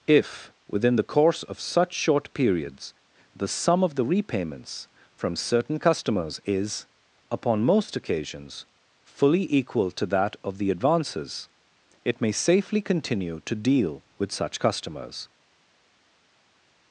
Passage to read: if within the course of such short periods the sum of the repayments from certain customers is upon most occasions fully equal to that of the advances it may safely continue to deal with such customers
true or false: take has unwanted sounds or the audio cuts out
false